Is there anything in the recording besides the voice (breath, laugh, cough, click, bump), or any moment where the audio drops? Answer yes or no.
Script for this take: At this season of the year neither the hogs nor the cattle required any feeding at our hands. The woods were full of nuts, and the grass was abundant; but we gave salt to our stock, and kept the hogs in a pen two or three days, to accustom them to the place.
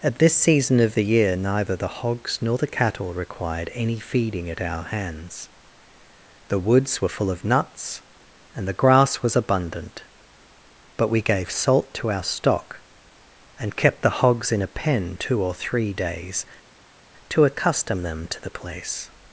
no